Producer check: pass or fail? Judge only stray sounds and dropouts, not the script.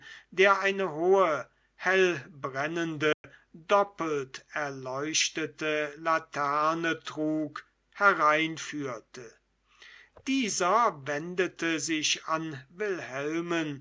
fail